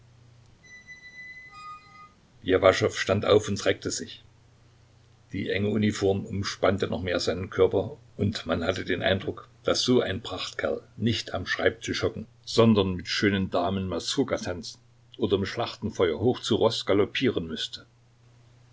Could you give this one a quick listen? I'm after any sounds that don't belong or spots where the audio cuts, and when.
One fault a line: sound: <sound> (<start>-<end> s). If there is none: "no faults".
sound: squeak (0.6-2.2 s)